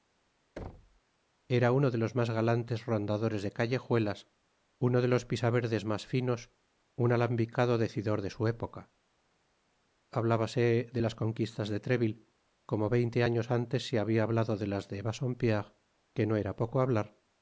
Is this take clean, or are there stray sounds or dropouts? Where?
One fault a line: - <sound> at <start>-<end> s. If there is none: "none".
- thud at 0.6-1.0 s